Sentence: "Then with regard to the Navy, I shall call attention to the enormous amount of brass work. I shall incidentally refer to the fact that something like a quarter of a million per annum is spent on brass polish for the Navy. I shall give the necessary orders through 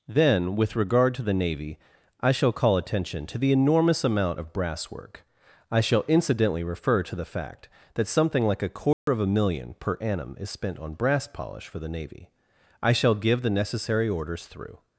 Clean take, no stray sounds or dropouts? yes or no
no